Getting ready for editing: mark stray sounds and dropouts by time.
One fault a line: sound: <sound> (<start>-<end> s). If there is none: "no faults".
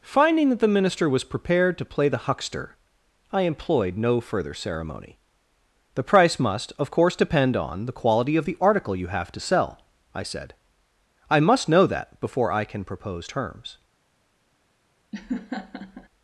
sound: laugh (15.1-16.1 s)